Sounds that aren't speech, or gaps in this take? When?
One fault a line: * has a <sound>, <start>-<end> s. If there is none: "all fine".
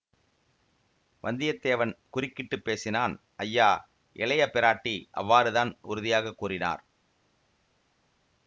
all fine